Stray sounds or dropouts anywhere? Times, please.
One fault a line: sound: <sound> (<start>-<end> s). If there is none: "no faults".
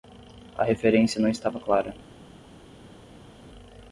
no faults